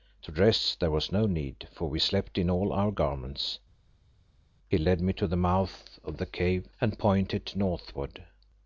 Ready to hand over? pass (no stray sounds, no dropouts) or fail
pass